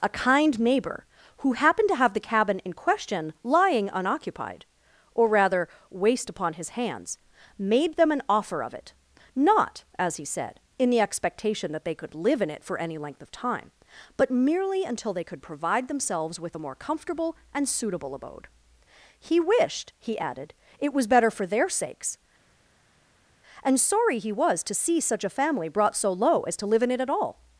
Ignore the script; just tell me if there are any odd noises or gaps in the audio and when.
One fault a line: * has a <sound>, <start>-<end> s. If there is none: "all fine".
all fine